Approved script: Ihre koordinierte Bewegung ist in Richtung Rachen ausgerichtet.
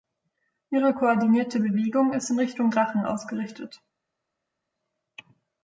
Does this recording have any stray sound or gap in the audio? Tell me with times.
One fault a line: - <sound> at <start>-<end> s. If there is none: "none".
none